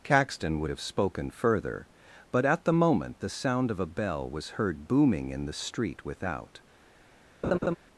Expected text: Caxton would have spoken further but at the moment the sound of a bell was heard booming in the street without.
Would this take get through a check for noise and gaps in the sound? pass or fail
fail